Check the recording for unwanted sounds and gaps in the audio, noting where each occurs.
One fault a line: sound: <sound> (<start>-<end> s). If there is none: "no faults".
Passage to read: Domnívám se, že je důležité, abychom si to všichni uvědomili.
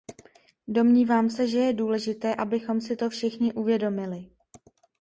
no faults